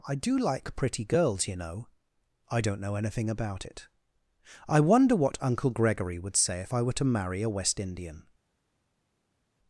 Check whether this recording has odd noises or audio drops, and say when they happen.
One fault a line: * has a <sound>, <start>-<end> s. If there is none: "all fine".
all fine